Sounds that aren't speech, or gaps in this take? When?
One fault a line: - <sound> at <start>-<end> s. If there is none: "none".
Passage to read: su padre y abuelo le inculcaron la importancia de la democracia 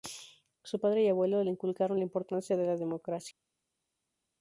none